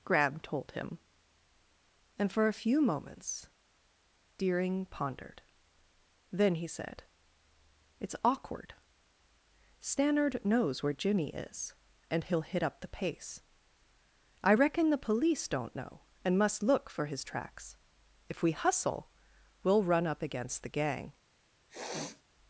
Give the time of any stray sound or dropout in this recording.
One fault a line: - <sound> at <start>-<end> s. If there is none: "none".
- sniff at 21.7-22.2 s